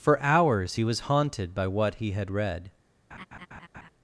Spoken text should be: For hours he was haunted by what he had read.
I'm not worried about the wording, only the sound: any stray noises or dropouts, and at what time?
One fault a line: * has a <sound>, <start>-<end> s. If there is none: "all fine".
* has a laugh, 3.1-3.9 s